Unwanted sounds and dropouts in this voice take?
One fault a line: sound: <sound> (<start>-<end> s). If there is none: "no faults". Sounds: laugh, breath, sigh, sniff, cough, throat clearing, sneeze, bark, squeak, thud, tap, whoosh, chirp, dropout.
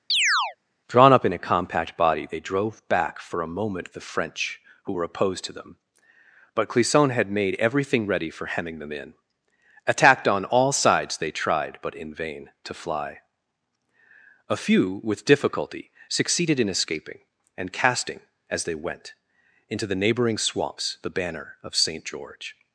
sound: chirp (0.1-0.6 s)